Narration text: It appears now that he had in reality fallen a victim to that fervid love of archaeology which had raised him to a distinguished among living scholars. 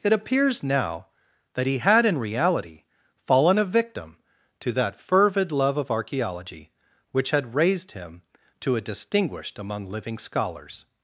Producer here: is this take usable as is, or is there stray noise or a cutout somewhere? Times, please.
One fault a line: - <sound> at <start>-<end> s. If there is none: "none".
none